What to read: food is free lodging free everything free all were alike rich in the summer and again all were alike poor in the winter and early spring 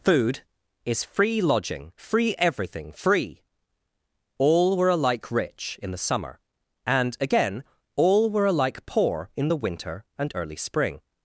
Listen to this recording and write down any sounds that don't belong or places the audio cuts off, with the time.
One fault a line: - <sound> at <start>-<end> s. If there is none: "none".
none